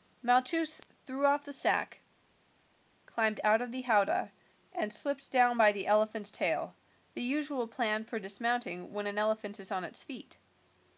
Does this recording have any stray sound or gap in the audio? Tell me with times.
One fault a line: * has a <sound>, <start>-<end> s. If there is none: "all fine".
all fine